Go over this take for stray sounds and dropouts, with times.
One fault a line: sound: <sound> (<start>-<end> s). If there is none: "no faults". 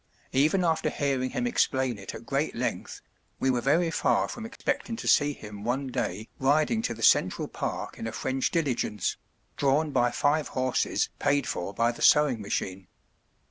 sound: dropout (4.6-4.6 s)